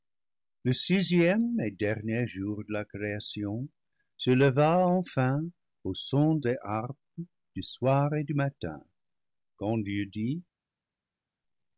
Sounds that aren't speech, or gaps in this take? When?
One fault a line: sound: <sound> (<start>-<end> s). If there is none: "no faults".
no faults